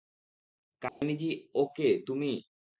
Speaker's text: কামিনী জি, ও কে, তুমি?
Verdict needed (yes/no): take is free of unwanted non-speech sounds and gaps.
no